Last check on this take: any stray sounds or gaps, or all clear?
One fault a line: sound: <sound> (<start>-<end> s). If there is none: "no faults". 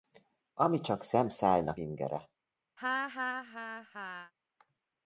sound: laugh (2.8-4.3 s)